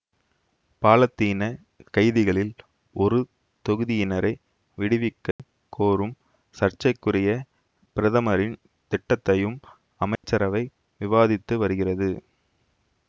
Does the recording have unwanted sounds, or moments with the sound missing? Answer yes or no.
yes